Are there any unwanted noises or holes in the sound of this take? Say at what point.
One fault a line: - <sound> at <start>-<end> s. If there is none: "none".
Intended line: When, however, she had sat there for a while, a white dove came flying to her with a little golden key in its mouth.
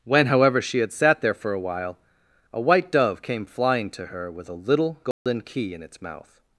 - dropout at 5.1-5.3 s